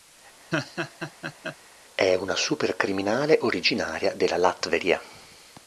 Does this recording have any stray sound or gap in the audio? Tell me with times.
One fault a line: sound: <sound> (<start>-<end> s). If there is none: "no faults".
sound: laugh (0.5-1.6 s)